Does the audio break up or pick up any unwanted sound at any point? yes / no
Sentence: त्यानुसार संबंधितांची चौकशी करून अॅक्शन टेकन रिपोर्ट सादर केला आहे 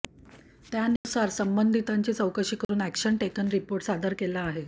yes